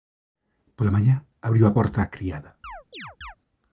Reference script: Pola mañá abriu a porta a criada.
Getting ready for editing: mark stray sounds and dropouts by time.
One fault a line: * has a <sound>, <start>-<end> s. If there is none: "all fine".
* has a chirp, 2.6-3.4 s